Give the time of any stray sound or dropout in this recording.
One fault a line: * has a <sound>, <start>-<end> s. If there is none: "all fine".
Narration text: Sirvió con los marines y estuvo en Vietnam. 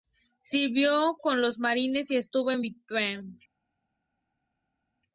all fine